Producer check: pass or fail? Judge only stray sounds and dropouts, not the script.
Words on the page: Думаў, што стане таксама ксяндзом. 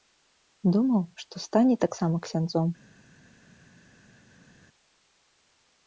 pass